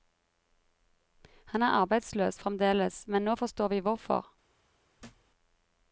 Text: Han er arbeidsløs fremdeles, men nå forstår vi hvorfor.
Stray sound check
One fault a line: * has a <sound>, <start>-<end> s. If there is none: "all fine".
* has a thud, 5.0-5.3 s